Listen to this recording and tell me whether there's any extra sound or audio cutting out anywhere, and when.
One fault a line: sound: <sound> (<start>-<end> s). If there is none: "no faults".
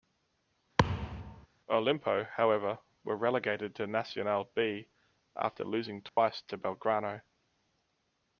sound: thud (0.8-1.5 s)
sound: dropout (6.1-6.2 s)